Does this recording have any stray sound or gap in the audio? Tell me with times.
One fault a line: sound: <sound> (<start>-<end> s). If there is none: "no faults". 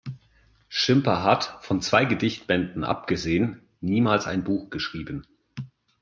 no faults